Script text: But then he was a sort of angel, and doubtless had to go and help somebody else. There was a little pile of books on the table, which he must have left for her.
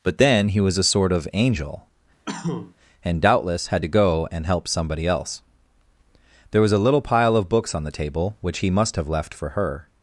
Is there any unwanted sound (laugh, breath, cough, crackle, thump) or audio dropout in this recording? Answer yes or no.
yes